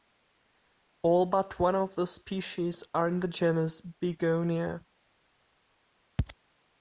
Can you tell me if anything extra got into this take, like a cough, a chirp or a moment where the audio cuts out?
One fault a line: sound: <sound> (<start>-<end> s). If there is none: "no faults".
no faults